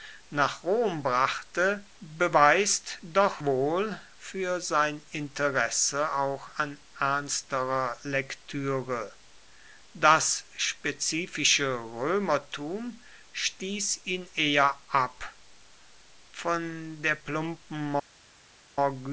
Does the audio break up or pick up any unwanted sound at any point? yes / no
no